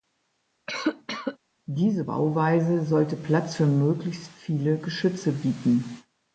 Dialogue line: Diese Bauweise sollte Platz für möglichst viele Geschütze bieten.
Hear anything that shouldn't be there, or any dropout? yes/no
yes